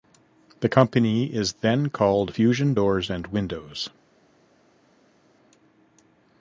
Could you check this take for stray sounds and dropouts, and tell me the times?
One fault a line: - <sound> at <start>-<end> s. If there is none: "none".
none